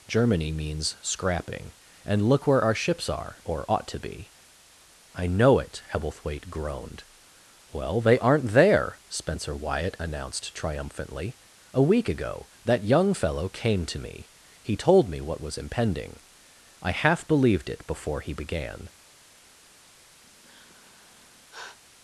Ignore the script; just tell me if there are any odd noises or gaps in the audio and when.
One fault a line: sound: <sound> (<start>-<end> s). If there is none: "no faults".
sound: sigh (20.2-21.8 s)